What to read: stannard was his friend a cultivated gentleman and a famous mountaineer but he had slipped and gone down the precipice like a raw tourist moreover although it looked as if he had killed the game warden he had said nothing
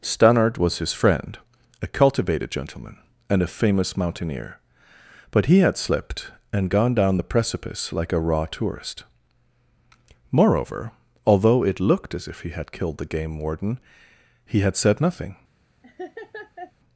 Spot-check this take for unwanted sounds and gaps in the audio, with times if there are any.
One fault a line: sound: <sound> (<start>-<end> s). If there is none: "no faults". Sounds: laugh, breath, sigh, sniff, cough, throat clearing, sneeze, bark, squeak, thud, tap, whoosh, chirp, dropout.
sound: laugh (15.8-16.7 s)